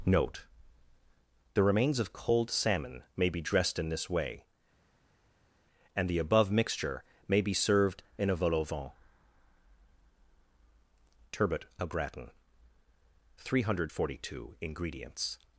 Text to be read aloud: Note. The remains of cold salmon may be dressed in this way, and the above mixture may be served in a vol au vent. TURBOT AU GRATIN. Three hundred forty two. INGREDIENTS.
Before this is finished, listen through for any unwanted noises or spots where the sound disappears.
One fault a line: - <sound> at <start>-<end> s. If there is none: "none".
none